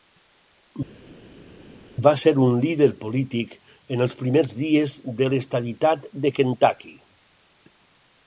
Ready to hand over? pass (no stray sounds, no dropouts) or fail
pass